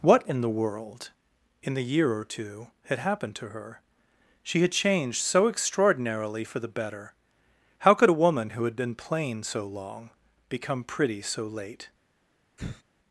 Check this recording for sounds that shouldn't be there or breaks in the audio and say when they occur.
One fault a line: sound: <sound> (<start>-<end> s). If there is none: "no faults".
sound: sigh (12.6-12.8 s)